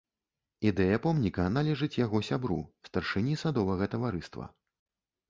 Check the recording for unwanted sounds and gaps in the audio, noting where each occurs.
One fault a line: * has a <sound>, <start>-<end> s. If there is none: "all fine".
all fine